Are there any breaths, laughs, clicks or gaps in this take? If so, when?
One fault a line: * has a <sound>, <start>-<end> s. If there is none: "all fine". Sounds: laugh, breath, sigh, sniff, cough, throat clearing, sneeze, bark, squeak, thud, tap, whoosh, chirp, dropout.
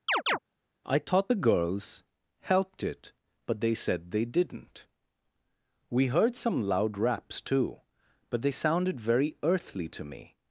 * has a chirp, 0.1-0.4 s